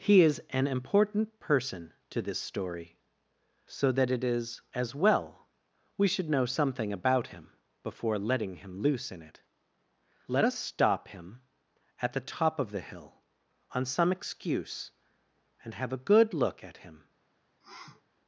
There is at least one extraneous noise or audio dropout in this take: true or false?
true